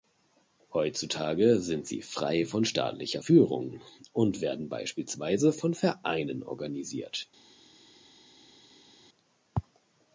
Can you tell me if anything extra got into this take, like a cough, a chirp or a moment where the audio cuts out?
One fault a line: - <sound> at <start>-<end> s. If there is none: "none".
none